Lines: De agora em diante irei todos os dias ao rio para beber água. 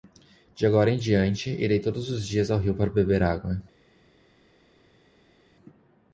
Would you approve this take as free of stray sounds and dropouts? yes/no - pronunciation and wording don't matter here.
yes